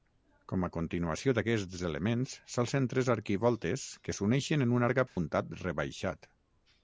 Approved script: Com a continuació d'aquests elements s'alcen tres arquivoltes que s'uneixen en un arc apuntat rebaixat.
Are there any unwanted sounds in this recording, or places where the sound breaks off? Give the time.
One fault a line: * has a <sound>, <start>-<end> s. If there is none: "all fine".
* has a dropout, 5.1-5.2 s